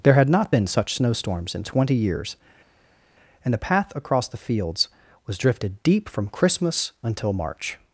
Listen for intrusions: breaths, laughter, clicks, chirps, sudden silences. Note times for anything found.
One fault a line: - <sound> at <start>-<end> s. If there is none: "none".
none